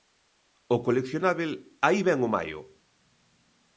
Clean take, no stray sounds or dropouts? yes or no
yes